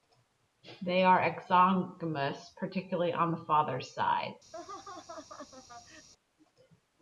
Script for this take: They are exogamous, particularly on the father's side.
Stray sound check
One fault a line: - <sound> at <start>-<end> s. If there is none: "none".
- laugh at 4.5-6.1 s